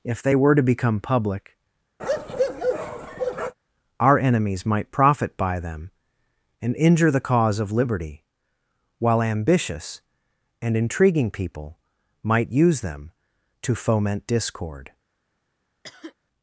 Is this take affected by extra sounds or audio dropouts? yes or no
yes